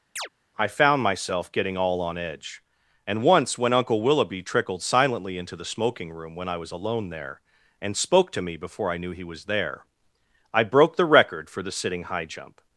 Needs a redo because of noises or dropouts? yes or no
yes